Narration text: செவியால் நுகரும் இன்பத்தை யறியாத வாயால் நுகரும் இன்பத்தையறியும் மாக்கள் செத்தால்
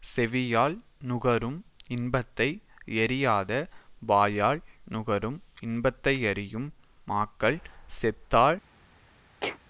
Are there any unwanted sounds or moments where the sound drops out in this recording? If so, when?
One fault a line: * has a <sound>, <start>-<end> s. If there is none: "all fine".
* has a sneeze, 9.4-9.6 s